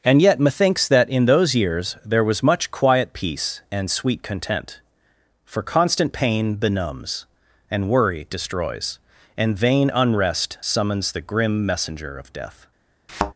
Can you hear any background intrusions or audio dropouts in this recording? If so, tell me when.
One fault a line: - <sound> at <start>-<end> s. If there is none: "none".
- thud at 13.1-13.3 s